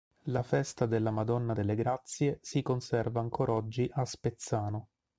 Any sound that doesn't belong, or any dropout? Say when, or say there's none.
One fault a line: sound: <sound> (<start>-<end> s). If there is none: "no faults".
no faults